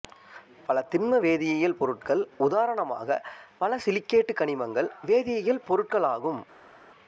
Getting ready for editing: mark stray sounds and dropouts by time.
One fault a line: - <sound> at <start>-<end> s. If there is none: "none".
none